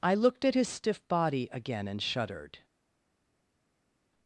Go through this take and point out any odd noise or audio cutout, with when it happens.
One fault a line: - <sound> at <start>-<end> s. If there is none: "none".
none